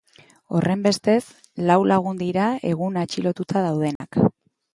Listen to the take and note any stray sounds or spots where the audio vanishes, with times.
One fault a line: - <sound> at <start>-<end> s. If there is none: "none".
- dropout at 4.0-4.0 s